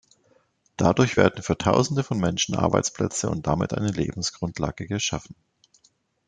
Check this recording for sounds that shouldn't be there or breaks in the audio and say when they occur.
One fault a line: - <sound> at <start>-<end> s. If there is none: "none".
none